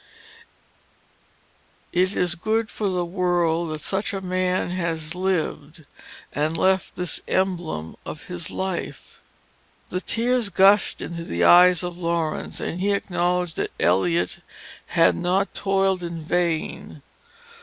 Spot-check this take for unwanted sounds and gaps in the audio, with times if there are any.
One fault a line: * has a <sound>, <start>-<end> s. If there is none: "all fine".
all fine